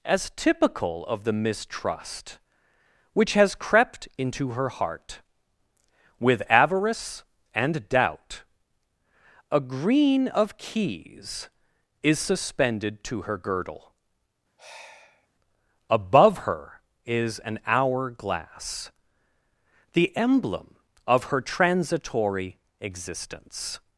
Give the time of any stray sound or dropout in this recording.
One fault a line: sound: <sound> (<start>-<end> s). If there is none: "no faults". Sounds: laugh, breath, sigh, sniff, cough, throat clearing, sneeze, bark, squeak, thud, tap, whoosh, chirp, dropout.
sound: sigh (14.6-15.3 s)